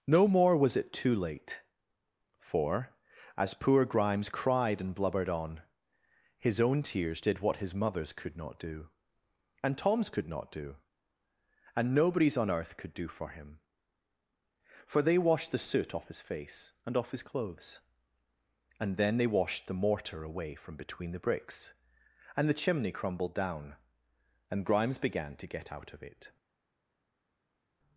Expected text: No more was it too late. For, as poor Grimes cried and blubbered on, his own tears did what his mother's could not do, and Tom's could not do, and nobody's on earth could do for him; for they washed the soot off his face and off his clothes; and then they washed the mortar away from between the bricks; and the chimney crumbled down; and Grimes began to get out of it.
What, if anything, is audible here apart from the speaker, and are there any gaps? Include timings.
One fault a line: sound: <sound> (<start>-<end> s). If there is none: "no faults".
no faults